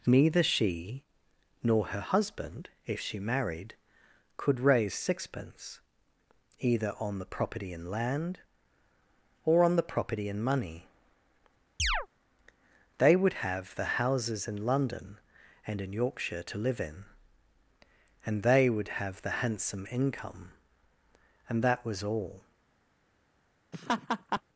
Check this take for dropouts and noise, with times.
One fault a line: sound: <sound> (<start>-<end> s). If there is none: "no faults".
sound: chirp (11.8-12.1 s)
sound: laugh (23.7-24.4 s)